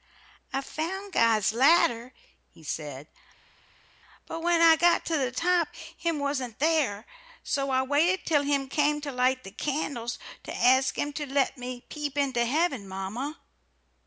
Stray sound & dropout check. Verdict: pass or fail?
pass